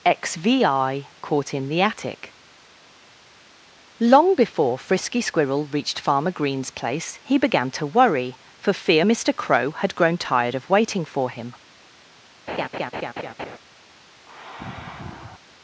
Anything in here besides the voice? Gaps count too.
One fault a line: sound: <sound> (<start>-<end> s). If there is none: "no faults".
sound: laugh (12.5-13.6 s)
sound: sigh (14.2-15.4 s)